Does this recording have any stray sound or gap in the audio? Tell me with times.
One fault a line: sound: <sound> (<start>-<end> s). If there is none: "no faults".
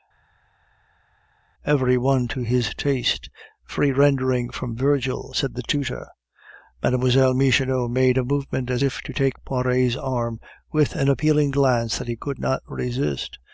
no faults